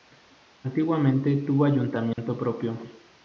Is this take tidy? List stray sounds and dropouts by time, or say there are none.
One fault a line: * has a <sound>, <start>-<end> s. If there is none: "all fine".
* has a dropout, 2.1-2.2 s